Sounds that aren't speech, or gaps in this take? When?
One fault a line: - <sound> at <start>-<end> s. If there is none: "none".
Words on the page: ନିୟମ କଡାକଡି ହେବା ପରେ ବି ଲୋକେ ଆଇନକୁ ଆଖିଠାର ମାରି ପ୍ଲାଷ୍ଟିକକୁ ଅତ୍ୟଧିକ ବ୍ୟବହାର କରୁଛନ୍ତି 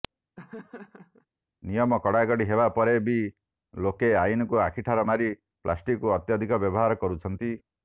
- laugh at 0.4-1.3 s